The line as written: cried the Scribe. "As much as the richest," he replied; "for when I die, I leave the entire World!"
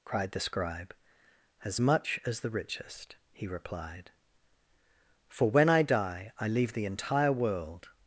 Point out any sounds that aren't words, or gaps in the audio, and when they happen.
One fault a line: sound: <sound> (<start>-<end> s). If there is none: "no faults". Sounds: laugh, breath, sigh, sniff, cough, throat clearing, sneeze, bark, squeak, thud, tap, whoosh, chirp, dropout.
no faults